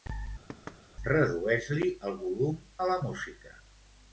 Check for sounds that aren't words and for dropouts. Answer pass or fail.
fail